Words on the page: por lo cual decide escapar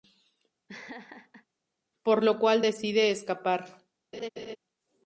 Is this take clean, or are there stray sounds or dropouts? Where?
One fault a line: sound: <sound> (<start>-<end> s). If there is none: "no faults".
sound: laugh (0.7-1.5 s)
sound: laugh (4.1-4.6 s)